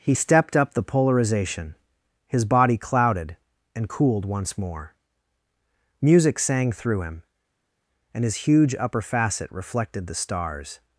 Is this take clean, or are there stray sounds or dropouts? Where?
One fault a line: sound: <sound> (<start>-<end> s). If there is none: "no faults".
no faults